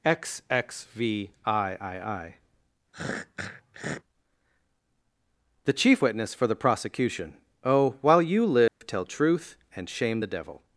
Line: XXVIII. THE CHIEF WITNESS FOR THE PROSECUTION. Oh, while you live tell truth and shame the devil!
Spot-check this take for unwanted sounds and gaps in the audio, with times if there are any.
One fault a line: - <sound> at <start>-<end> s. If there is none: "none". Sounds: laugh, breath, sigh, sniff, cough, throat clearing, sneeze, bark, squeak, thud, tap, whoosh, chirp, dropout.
- throat clearing at 2.9-4.0 s
- dropout at 8.7-8.8 s